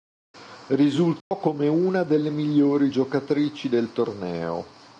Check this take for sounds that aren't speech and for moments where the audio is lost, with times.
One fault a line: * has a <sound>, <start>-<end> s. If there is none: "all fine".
* has a dropout, 1.2-1.3 s